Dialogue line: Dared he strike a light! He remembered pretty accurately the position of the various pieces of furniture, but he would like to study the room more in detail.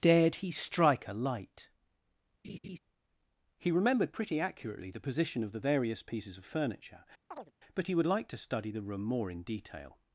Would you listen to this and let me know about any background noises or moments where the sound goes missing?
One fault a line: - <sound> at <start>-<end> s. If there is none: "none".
- laugh at 2.4-2.8 s
- chirp at 7.3-7.5 s